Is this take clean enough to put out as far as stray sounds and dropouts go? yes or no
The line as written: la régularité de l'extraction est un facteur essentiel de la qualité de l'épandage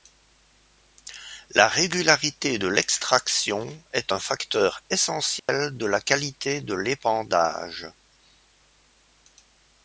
no